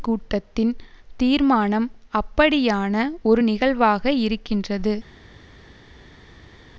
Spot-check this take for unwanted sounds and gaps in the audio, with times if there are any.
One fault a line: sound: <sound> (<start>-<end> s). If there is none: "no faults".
no faults